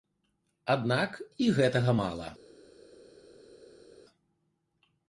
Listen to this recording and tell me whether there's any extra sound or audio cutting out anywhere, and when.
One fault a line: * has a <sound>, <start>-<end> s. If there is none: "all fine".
all fine